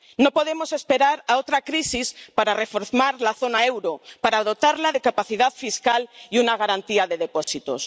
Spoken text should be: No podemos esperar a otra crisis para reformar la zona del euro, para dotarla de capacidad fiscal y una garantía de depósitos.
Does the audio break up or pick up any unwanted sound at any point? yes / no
yes